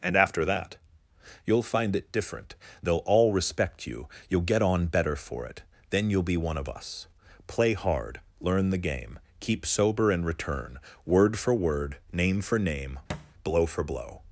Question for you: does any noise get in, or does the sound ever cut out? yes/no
yes